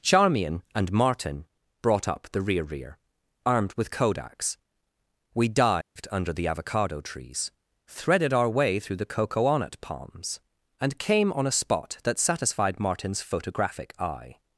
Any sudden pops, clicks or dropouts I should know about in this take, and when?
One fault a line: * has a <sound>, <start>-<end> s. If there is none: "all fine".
* has a dropout, 5.8-6.0 s